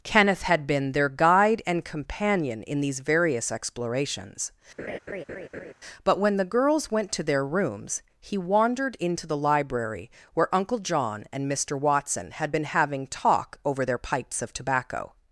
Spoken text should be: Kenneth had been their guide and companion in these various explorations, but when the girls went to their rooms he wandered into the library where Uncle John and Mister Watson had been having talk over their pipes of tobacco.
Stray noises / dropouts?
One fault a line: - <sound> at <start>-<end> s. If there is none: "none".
- laugh at 4.8-5.7 s